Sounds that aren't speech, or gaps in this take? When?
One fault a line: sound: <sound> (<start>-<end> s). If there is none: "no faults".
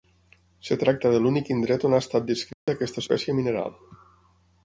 sound: dropout (2.5-2.7 s)